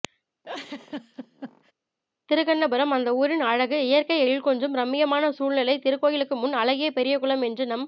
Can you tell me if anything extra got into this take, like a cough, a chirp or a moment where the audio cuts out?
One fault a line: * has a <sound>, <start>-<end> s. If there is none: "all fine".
* has a laugh, 0.4-1.7 s